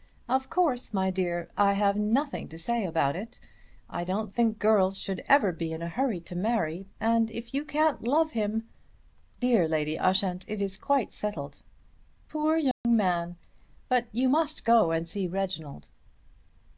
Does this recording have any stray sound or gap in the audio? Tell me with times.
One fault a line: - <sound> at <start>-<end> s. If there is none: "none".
- dropout at 12.7-12.8 s